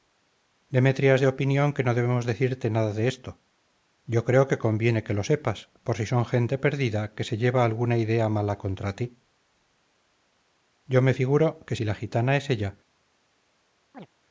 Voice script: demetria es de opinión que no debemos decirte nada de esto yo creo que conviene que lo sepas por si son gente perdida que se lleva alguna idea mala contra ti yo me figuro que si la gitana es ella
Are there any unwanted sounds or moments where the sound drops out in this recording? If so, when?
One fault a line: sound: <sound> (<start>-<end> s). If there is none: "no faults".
sound: chirp (13.9-14.1 s)